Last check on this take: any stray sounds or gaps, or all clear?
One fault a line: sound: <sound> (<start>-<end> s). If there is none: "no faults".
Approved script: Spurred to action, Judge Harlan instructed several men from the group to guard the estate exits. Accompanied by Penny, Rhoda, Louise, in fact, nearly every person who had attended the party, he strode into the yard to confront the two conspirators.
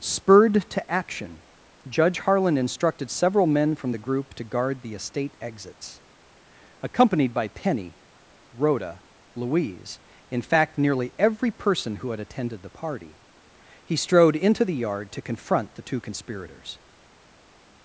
no faults